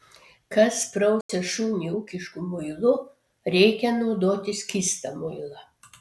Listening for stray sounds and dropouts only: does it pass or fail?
fail